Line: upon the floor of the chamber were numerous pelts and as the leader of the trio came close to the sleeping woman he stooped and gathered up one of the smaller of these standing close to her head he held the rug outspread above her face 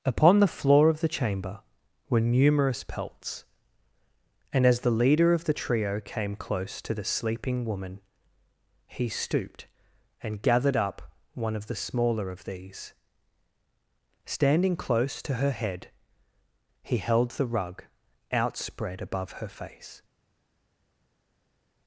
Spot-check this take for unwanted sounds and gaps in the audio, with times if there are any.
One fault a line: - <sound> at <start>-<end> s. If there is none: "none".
none